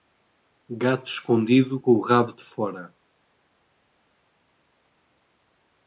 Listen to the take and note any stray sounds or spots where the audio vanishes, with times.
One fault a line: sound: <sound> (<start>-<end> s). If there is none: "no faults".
no faults